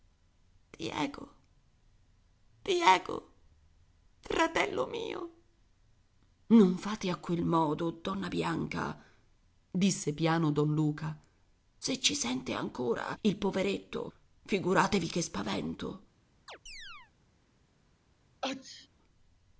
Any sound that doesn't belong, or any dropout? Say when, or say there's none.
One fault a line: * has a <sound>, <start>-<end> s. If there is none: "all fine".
* has a chirp, 16.5-17.1 s
* has a sneeze, 18.4-18.9 s